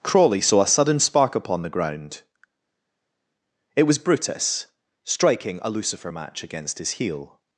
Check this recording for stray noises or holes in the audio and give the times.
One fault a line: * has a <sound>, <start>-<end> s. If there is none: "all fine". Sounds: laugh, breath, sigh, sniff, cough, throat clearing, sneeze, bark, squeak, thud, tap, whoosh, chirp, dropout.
all fine